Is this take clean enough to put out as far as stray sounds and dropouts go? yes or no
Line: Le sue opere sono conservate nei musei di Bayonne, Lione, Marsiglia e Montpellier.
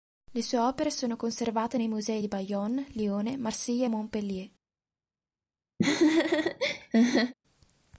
no